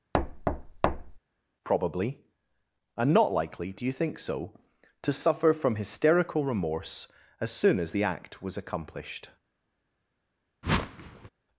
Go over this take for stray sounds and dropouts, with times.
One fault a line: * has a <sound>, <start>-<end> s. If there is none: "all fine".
* has a thud, 0.1-1.2 s
* has a whoosh, 10.6-11.3 s